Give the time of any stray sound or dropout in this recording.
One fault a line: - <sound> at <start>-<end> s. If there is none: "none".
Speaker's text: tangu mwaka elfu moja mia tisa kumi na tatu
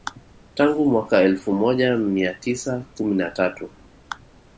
none